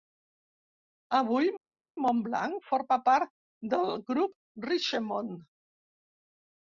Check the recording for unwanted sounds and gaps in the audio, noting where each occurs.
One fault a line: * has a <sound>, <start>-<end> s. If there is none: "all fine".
all fine